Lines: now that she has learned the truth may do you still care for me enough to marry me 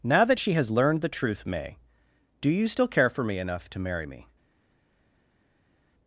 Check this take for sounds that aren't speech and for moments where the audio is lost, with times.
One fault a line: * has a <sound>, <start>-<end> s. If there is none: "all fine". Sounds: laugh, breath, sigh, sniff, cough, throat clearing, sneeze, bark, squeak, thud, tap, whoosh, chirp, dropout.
all fine